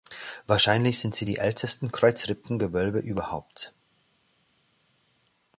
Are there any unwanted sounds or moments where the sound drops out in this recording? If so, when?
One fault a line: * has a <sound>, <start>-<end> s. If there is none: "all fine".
all fine